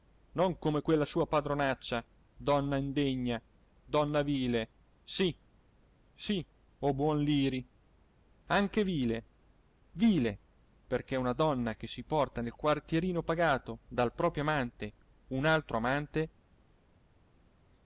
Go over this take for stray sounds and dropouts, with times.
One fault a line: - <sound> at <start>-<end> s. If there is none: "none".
none